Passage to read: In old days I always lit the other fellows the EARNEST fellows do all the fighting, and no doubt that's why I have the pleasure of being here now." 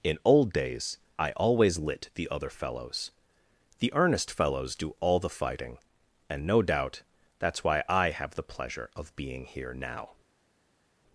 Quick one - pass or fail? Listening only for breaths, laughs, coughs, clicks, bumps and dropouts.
pass